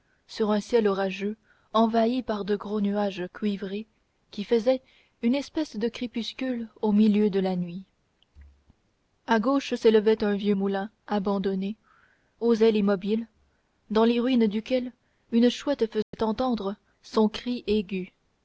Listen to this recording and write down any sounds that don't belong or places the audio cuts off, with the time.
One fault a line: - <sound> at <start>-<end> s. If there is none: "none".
- dropout at 16.0-16.1 s